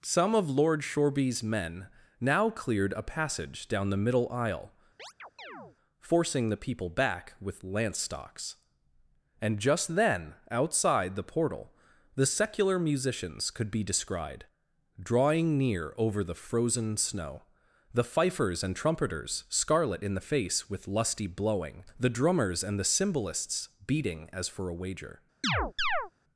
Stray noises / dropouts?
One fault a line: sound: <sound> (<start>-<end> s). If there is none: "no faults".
sound: chirp (5.0-5.8 s)
sound: chirp (25.4-26.1 s)